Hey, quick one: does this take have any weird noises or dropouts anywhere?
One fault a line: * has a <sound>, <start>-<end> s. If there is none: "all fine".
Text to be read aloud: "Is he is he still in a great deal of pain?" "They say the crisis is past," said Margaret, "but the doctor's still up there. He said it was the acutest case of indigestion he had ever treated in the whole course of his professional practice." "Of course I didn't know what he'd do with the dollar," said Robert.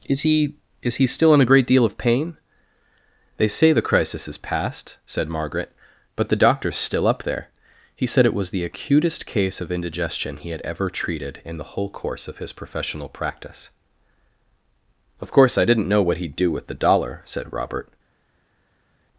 all fine